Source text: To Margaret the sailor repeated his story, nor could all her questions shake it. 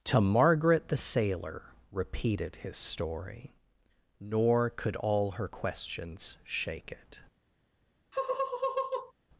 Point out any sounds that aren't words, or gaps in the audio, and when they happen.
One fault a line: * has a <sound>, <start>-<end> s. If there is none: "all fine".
* has a laugh, 8.1-9.1 s